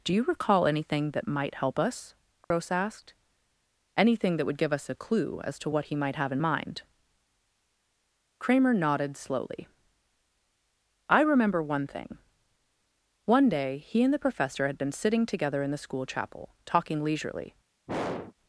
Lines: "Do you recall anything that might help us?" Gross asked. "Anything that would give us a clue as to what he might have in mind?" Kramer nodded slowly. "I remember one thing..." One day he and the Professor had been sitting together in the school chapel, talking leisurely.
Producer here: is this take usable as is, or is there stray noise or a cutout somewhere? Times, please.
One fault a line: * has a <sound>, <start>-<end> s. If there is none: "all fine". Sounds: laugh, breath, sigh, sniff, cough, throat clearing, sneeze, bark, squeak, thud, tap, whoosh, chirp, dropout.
* has a dropout, 2.4-2.5 s
* has a throat clearing, 17.9-18.3 s